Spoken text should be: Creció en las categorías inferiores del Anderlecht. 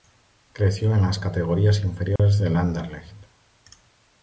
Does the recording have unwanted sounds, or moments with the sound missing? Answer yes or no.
yes